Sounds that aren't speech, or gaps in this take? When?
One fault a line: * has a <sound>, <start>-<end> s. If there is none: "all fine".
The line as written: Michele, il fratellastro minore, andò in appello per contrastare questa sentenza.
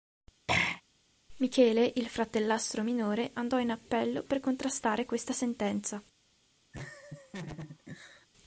* has a throat clearing, 0.5-0.8 s
* has a laugh, 6.7-8.3 s